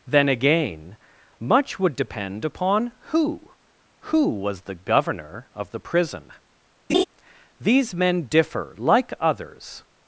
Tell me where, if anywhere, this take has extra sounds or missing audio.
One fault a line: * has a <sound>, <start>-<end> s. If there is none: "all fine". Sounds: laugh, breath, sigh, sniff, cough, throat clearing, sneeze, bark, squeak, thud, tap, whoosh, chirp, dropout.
* has a laugh, 6.9-7.0 s